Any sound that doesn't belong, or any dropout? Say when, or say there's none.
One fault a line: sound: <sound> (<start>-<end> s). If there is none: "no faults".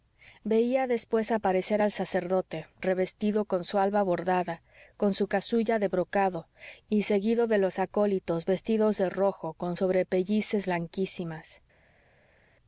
no faults